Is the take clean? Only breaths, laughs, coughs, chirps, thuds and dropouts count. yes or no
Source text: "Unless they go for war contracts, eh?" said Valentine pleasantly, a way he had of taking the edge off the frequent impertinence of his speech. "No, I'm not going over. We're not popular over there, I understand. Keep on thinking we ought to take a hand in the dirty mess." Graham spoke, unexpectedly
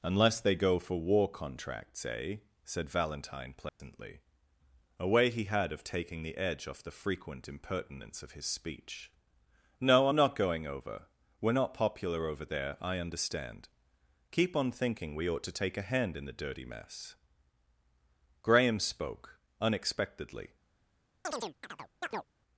no